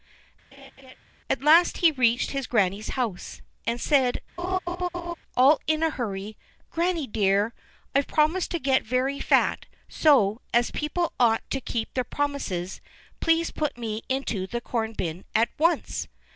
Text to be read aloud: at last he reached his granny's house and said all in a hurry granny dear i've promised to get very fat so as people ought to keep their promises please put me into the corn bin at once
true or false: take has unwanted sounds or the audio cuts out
true